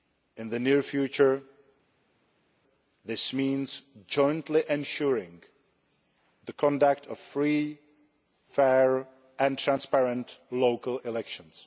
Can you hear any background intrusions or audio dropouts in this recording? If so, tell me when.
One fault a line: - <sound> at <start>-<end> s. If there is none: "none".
none